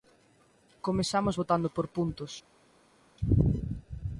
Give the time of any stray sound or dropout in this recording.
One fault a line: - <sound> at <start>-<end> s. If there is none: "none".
none